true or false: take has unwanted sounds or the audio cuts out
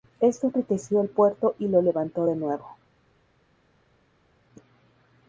false